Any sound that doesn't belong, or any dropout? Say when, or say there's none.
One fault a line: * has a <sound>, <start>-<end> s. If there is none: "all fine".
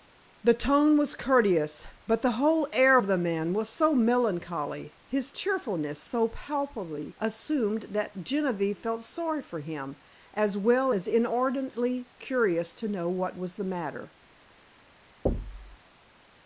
* has a thud, 15.3-15.8 s